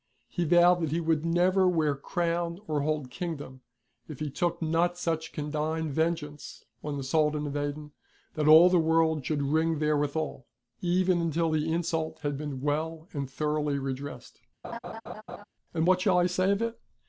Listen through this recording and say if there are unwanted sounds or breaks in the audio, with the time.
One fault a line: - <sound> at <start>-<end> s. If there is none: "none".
- laugh at 14.6-15.4 s